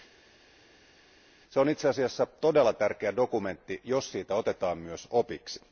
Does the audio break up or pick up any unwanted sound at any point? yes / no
no